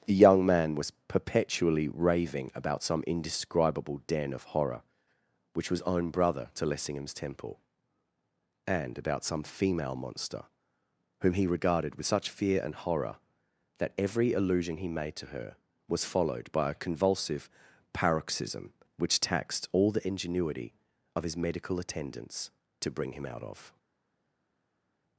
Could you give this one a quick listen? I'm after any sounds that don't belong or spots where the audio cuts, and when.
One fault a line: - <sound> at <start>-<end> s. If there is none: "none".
none